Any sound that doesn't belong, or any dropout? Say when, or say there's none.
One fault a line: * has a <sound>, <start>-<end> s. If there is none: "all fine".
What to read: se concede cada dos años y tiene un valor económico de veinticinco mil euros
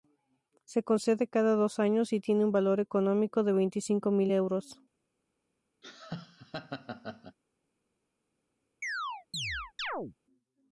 * has a laugh, 5.8-7.4 s
* has a chirp, 8.8-10.2 s